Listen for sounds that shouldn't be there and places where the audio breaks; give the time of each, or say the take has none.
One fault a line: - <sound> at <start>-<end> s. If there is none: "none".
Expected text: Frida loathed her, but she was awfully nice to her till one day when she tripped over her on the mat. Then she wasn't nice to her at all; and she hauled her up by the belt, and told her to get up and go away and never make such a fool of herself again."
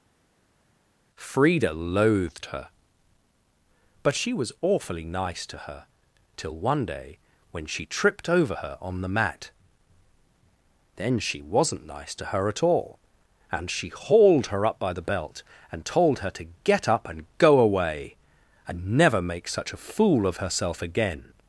none